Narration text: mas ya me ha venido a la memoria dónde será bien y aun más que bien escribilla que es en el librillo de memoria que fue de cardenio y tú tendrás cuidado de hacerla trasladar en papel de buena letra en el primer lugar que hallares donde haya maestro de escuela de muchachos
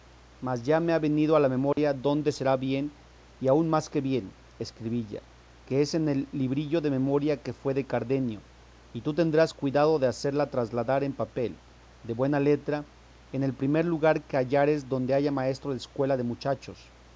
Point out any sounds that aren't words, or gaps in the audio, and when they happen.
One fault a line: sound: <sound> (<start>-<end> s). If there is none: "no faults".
sound: dropout (1.7-1.8 s)